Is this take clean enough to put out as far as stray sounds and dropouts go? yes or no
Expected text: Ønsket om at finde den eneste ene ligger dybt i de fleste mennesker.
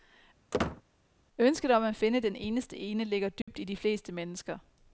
no